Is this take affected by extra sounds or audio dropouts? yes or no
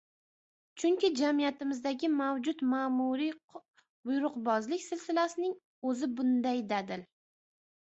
no